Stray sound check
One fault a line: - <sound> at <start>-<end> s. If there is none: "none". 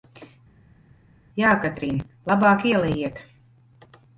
none